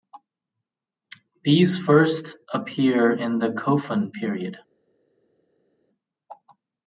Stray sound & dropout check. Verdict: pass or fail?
pass